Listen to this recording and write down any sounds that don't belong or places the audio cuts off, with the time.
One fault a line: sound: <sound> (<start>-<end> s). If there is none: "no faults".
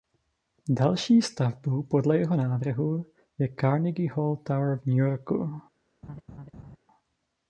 sound: laugh (6.0-6.8 s)